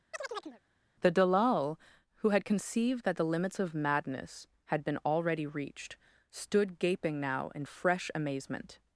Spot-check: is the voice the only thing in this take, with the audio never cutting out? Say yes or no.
no